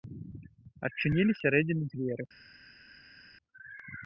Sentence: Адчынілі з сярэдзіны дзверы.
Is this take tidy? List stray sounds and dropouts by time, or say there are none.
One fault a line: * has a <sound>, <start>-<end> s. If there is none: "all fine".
all fine